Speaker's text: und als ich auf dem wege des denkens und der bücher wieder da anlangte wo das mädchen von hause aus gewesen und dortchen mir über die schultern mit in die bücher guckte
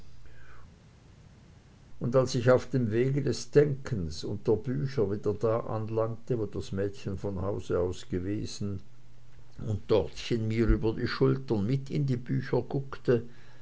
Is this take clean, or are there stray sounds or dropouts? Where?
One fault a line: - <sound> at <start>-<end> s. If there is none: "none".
none